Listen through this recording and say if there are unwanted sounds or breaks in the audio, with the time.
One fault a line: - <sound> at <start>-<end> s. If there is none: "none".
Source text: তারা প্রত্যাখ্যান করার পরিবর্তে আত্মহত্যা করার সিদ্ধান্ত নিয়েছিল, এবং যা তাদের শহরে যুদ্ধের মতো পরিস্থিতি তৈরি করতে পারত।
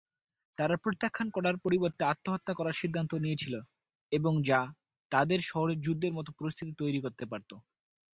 none